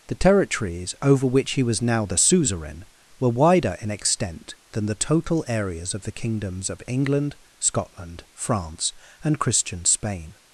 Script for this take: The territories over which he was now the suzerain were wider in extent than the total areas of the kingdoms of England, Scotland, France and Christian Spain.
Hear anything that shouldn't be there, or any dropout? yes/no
no